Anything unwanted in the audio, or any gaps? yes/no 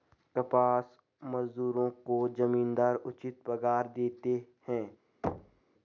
yes